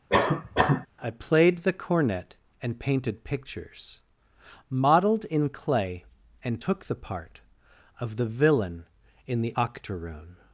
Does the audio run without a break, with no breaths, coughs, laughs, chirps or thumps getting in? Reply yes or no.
no